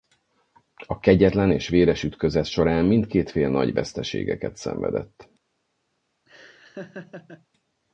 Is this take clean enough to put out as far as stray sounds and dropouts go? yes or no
no